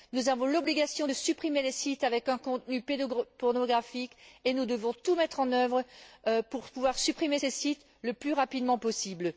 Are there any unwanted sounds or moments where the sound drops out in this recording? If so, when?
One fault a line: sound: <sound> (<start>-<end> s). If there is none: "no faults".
no faults